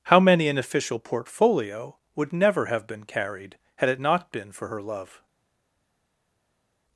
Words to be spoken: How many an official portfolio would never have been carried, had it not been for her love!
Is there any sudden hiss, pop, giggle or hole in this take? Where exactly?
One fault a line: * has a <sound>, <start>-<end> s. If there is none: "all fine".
all fine